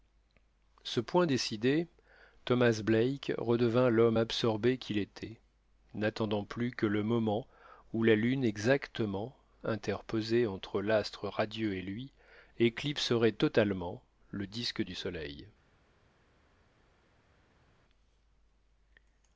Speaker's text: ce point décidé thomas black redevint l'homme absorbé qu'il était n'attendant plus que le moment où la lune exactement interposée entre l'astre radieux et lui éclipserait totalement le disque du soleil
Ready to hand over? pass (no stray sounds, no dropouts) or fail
pass